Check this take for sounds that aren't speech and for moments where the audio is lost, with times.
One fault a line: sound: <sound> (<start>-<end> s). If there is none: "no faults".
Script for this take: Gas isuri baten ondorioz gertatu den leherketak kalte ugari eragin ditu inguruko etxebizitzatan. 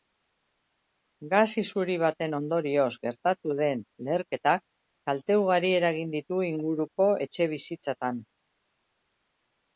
no faults